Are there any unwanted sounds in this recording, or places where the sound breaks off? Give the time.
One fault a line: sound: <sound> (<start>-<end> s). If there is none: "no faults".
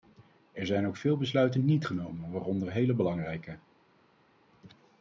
no faults